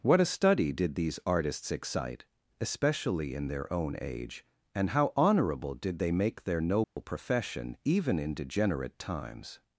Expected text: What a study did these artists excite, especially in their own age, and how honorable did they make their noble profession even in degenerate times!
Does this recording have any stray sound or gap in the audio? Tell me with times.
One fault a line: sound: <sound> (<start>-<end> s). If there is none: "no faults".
sound: dropout (6.8-7.0 s)